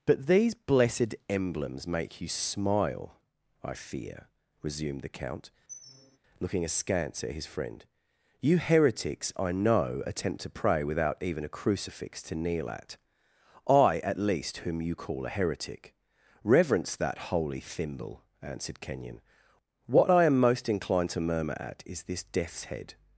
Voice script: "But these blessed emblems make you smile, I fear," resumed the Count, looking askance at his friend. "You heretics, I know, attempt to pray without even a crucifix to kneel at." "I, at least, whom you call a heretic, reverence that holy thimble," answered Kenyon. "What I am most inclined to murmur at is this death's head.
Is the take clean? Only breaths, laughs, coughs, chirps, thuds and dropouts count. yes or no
no